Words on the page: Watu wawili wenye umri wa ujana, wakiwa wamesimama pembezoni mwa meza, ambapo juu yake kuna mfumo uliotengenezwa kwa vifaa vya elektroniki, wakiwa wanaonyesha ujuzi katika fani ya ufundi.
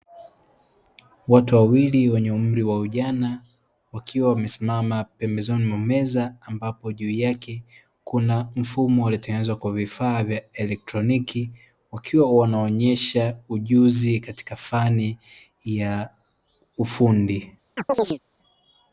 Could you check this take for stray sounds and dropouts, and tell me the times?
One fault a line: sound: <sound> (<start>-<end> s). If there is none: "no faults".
sound: chirp (17.8-18.2 s)